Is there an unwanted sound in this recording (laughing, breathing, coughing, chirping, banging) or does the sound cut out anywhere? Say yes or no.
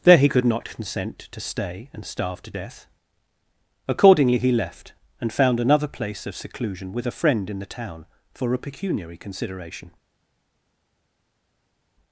no